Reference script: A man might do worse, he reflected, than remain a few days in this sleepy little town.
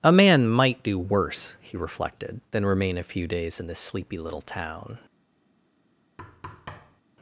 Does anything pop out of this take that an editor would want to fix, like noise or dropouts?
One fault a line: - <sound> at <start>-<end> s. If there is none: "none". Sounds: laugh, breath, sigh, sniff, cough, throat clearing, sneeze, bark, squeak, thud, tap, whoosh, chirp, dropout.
- thud at 6.2-7.0 s